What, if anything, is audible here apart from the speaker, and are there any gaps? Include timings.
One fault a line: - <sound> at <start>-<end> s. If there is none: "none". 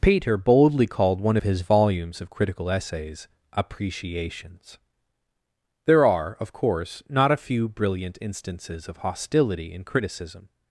none